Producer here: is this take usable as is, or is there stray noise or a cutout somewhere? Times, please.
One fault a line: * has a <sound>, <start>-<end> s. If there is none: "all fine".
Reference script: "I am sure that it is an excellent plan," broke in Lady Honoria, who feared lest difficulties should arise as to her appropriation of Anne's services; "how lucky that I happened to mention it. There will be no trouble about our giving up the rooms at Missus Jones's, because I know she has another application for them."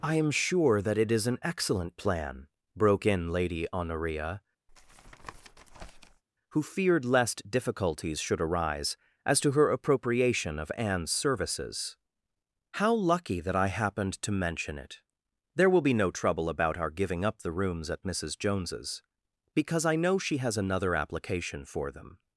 * has a tap, 4.7-6.2 s